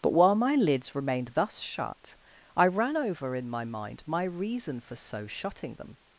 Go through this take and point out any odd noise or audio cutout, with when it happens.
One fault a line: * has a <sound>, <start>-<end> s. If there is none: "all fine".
all fine